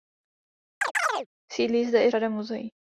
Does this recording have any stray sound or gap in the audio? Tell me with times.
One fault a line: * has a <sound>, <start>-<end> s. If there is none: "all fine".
* has a chirp, 0.8-1.3 s